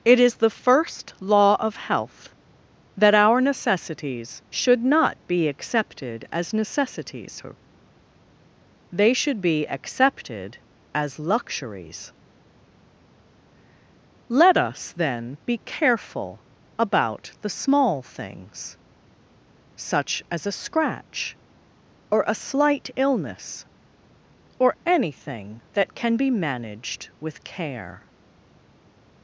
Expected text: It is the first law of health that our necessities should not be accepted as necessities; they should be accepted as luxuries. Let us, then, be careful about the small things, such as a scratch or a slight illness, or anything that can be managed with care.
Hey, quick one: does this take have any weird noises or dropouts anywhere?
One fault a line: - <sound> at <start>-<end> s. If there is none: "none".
none